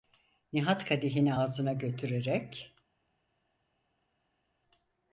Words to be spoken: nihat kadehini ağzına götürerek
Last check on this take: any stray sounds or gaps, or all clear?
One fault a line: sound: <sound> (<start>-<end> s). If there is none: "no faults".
no faults